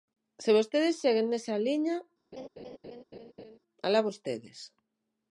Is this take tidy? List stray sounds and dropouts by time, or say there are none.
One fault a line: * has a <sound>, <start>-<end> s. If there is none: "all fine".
* has a laugh, 2.3-3.6 s